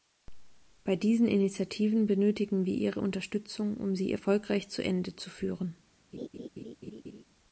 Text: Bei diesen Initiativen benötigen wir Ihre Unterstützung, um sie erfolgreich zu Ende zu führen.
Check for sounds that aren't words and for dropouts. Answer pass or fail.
fail